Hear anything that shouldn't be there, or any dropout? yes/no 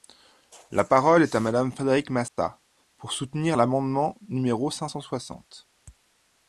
yes